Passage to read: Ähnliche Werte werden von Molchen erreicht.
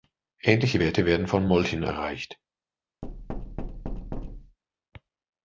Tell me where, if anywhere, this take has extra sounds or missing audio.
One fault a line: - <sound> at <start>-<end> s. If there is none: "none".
- thud at 3.0-4.6 s